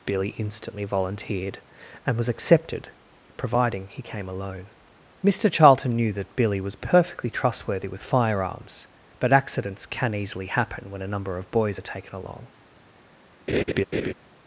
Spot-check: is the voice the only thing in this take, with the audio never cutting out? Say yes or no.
no